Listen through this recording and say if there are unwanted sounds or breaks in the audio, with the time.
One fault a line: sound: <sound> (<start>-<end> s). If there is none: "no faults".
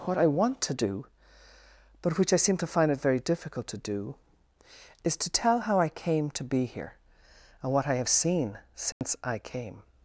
sound: dropout (8.9-9.0 s)